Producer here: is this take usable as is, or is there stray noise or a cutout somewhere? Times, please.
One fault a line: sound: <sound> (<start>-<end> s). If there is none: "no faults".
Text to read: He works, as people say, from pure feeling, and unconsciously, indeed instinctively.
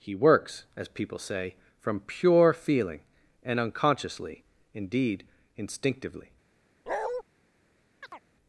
sound: bark (6.9-7.2 s)
sound: chirp (8.0-8.2 s)